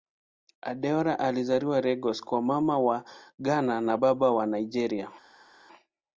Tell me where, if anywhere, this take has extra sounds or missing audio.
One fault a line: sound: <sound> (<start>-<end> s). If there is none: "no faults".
no faults